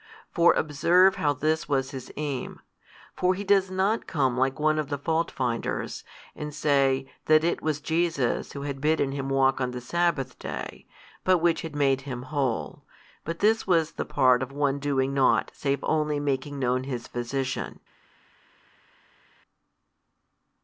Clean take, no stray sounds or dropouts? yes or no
yes